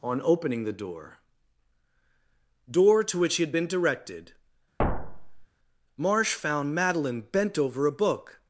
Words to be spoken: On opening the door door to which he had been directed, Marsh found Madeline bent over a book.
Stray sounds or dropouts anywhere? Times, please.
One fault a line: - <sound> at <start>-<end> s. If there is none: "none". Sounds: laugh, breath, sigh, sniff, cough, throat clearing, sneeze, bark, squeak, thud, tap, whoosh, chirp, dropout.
- thud at 4.8-5.5 s